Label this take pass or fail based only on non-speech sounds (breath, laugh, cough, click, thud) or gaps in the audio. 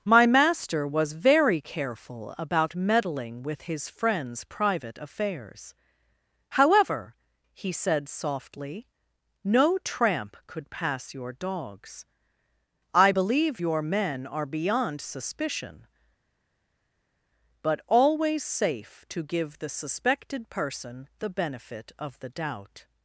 pass